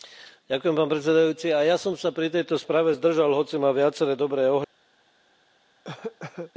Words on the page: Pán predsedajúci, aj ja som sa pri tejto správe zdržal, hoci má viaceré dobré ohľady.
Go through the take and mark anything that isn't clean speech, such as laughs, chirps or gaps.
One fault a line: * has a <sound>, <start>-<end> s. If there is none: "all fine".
* has a cough, 5.8-6.5 s